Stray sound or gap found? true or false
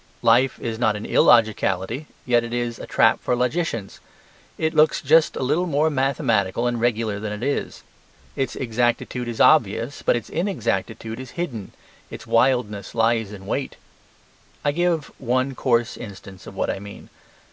false